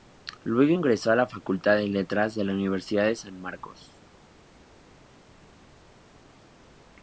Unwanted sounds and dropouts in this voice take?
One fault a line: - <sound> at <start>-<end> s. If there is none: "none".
none